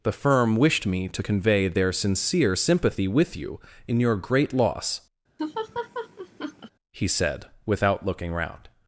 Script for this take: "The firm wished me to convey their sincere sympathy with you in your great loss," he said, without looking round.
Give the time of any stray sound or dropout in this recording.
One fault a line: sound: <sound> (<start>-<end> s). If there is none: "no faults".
sound: laugh (5.4-6.7 s)